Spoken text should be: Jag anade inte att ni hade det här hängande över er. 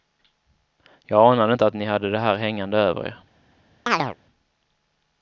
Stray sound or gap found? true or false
true